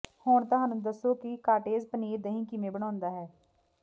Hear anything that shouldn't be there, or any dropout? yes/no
no